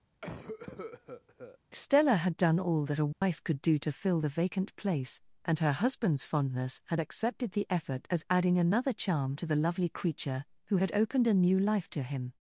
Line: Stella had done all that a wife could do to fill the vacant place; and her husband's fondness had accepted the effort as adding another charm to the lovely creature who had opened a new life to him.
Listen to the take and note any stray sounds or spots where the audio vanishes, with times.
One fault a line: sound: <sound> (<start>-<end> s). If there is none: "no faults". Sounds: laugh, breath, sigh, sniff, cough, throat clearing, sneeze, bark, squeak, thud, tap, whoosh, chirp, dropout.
sound: cough (0.2-1.6 s)
sound: dropout (3.1-3.2 s)